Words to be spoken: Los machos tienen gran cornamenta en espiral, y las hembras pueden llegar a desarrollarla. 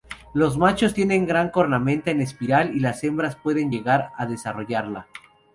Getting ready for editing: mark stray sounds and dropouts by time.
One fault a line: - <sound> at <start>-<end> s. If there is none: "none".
none